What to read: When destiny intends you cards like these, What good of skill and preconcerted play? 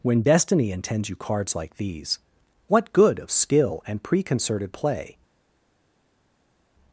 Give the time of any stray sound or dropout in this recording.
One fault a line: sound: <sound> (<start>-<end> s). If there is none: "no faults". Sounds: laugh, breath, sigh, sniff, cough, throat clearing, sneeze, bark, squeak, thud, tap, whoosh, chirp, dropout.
no faults